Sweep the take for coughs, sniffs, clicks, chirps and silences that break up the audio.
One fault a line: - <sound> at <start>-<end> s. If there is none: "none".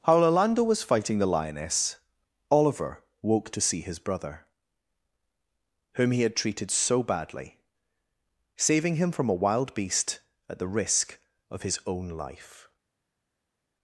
none